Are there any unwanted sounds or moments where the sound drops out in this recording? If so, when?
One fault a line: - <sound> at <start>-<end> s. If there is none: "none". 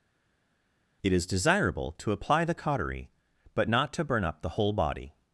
none